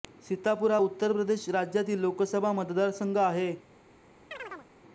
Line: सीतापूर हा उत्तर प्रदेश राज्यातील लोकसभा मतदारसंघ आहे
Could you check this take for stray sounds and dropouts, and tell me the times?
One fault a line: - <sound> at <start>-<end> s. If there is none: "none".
- chirp at 4.3-4.7 s